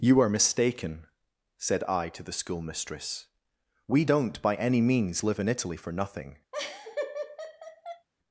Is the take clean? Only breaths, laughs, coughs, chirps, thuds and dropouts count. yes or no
no